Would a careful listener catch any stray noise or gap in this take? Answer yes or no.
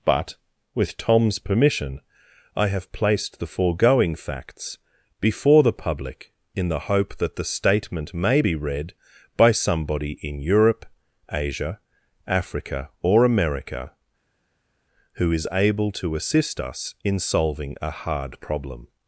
no